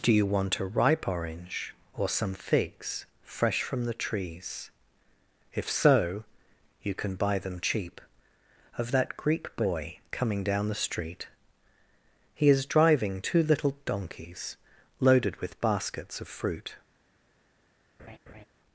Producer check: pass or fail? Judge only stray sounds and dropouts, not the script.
fail